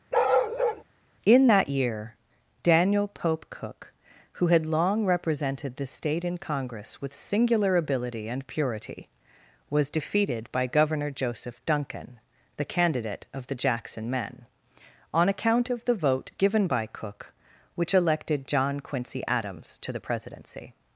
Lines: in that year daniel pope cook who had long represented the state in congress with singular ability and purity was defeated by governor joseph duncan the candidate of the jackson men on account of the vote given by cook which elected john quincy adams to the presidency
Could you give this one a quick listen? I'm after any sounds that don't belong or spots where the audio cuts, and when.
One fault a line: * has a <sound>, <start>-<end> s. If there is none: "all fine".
* has a bark, 0.1-0.8 s